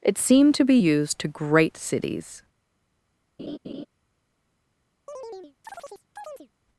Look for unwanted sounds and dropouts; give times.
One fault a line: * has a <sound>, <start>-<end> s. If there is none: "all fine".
* has a laugh, 3.4-3.9 s
* has a chirp, 5.1-6.5 s